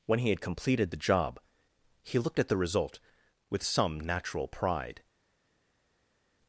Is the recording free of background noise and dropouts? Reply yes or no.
yes